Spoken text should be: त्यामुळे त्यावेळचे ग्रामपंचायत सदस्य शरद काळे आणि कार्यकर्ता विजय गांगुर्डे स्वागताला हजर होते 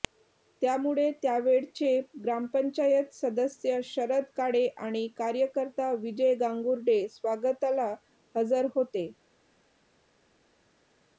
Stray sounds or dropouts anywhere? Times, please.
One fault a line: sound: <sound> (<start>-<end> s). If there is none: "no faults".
no faults